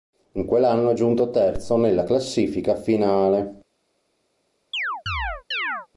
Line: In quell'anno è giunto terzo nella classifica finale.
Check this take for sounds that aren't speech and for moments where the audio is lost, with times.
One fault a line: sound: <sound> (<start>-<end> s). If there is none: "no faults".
sound: chirp (4.7-5.9 s)